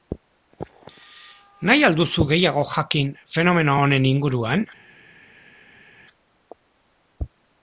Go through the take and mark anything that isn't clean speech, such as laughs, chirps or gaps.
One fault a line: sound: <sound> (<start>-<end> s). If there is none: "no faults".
no faults